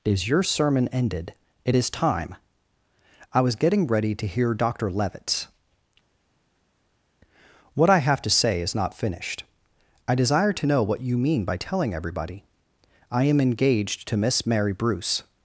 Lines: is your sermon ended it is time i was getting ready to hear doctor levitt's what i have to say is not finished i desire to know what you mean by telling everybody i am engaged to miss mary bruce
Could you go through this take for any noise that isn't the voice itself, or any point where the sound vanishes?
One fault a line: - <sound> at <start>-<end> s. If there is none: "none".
none